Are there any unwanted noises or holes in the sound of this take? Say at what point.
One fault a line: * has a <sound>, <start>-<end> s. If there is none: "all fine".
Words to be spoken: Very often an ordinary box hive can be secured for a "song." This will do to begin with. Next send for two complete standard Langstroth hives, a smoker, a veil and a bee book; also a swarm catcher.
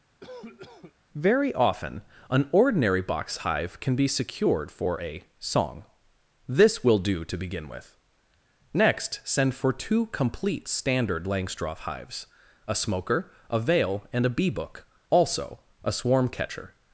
* has a cough, 0.2-0.9 s